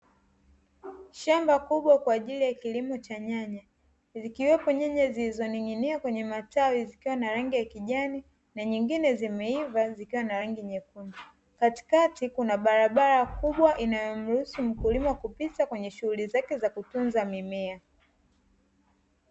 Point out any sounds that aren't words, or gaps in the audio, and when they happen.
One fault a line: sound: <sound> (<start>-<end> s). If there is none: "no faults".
no faults